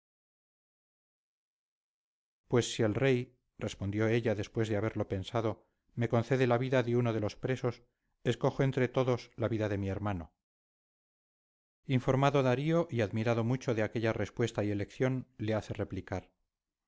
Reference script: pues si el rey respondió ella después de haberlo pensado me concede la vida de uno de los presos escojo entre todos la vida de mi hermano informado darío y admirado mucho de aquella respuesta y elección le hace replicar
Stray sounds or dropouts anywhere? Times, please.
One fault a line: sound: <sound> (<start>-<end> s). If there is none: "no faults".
no faults